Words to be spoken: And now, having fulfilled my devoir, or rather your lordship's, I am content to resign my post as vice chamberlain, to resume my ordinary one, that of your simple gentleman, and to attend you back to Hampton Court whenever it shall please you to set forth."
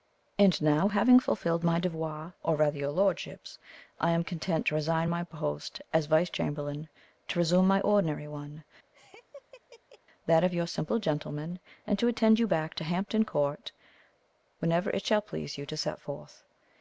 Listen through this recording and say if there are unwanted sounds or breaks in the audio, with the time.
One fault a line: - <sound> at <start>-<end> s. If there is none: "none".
- laugh at 8.9-10.0 s